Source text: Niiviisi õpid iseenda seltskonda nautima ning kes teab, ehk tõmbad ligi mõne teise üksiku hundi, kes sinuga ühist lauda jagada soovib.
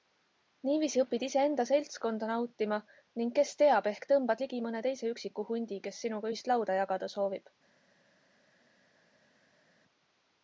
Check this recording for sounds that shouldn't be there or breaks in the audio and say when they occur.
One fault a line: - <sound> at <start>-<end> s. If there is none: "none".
none